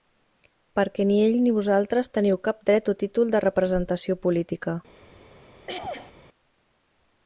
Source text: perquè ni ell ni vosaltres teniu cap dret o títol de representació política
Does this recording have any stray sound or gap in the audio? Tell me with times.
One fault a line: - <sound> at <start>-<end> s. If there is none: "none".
- throat clearing at 5.7-6.1 s